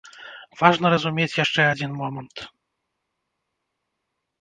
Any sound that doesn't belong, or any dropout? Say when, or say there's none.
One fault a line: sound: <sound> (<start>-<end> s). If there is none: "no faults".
no faults